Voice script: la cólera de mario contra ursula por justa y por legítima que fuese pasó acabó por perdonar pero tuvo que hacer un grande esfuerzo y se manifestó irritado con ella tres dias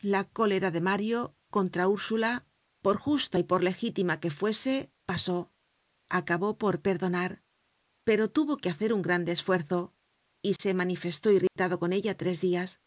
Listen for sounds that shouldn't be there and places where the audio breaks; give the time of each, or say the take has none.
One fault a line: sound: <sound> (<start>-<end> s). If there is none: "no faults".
sound: dropout (10.6-10.6 s)
sound: dropout (11.5-11.6 s)